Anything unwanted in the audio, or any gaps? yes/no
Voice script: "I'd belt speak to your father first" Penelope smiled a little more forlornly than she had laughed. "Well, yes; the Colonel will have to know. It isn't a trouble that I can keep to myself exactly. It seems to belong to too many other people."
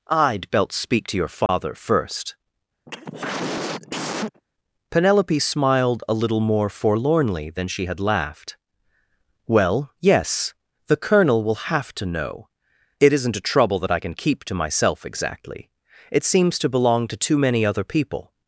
yes